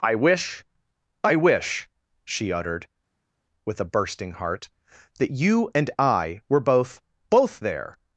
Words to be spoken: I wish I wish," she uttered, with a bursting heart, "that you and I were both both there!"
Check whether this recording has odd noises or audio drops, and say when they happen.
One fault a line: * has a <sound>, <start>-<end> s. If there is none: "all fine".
all fine